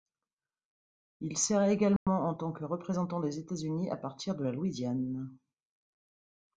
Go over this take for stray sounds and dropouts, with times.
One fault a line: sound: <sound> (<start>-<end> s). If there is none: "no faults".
sound: dropout (2.0-2.1 s)